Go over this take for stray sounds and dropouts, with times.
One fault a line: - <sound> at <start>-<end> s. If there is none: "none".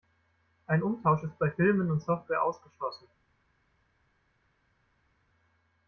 none